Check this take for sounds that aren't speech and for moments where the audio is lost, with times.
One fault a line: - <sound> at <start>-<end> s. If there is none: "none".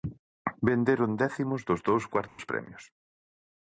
- dropout at 2.3-2.4 s